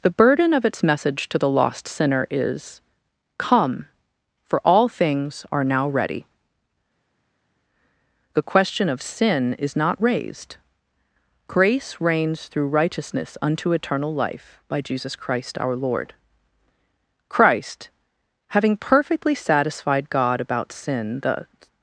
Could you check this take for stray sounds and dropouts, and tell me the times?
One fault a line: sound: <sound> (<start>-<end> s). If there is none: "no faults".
no faults